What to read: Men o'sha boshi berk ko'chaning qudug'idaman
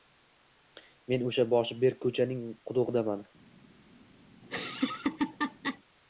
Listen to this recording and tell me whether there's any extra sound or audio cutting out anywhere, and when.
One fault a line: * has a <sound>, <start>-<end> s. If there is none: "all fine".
* has a laugh, 4.4-5.8 s